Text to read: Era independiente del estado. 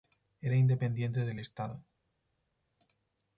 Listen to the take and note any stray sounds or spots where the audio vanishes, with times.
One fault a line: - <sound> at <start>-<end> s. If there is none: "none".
none